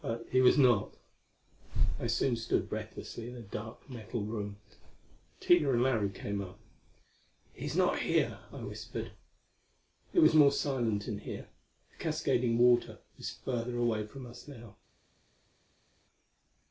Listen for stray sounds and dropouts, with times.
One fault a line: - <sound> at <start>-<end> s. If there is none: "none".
none